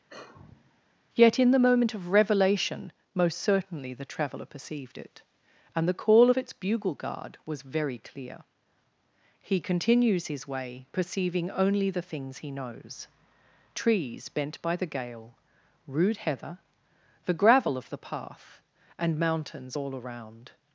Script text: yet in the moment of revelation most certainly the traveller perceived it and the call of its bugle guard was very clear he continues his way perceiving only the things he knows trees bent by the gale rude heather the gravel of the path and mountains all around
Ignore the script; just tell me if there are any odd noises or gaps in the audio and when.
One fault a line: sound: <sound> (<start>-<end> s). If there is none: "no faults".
sound: sigh (0.1-0.8 s)